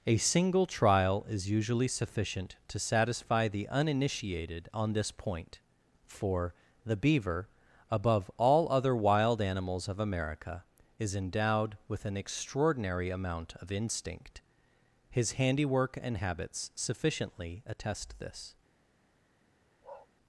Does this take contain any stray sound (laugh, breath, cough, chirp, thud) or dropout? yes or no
yes